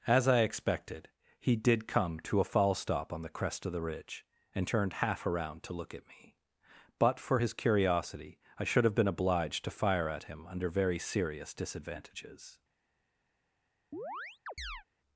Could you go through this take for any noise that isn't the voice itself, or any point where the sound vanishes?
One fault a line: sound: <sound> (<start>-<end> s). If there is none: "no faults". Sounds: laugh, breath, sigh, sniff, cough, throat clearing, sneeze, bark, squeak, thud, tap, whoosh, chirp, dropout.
sound: chirp (13.9-14.8 s)